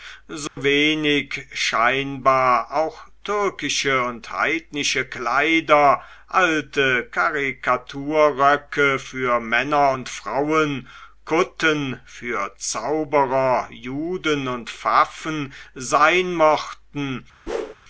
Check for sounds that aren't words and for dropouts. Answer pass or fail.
fail